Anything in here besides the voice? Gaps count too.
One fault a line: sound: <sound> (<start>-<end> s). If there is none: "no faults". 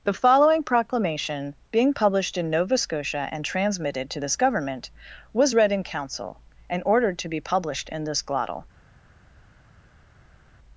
no faults